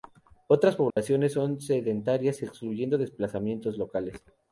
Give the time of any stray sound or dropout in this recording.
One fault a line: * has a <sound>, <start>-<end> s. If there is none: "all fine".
* has a dropout, 0.9-1.0 s